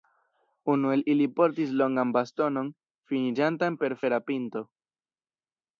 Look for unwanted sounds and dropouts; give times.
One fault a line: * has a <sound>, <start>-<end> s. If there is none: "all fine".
all fine